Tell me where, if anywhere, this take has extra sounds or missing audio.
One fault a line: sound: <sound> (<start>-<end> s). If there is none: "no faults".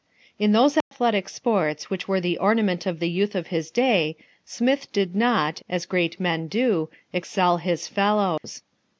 sound: dropout (0.8-0.9 s)
sound: dropout (8.4-8.4 s)